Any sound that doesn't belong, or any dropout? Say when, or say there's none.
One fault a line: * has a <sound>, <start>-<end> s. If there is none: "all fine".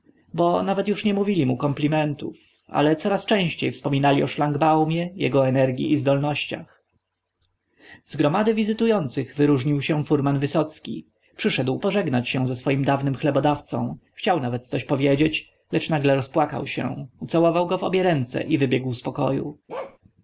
* has a bark, 19.7-20.0 s